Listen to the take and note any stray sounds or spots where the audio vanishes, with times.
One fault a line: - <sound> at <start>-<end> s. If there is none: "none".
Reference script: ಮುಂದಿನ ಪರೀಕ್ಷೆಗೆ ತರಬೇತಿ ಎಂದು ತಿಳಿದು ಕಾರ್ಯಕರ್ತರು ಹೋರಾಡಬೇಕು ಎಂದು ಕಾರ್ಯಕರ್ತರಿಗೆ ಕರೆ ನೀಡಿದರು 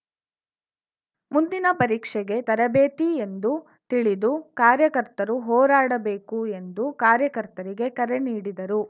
none